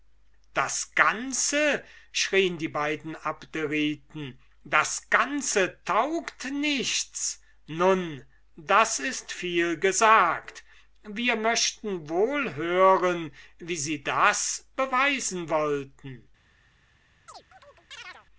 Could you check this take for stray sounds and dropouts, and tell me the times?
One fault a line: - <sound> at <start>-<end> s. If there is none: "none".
- chirp at 17.3-18.3 s